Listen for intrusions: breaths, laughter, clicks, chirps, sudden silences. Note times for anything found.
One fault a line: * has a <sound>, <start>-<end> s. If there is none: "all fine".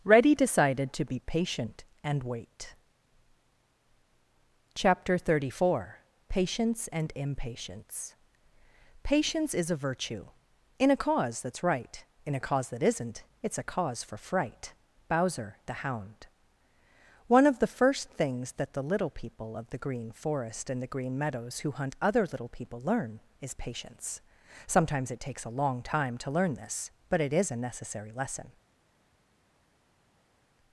all fine